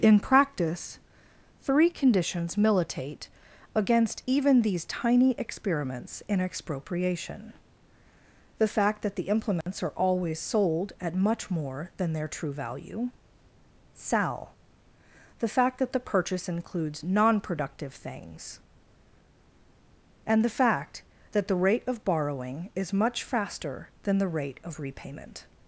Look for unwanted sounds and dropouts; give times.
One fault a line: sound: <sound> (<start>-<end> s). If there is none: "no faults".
sound: dropout (9.6-9.7 s)